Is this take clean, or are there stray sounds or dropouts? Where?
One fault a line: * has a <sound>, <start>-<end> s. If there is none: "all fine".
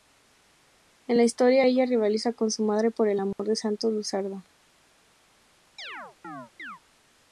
* has a dropout, 3.3-3.4 s
* has a chirp, 5.8-6.8 s